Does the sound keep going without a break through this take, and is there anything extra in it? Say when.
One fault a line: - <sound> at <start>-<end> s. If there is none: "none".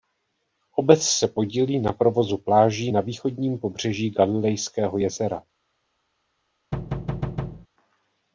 - thud at 6.7-7.7 s